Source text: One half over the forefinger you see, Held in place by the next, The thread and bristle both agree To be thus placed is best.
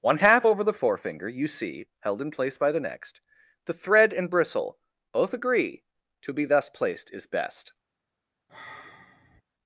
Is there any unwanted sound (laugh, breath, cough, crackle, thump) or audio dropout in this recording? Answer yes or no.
yes